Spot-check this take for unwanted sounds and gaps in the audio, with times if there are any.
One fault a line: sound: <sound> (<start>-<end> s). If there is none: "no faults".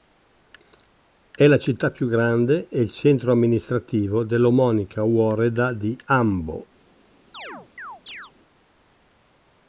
sound: chirp (7.3-8.3 s)